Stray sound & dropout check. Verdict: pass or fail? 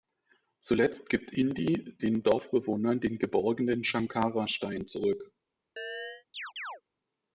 fail